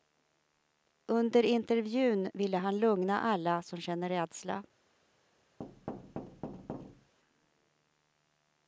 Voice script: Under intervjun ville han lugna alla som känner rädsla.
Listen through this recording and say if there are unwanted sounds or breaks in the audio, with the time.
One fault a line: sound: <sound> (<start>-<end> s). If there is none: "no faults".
sound: thud (5.6-7.1 s)